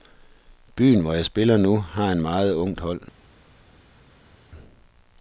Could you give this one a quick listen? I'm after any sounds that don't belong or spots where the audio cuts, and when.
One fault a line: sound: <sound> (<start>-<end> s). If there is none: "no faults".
no faults